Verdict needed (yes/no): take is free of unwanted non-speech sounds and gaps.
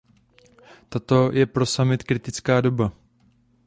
yes